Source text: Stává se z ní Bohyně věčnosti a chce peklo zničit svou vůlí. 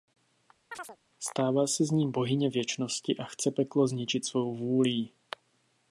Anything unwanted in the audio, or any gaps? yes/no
yes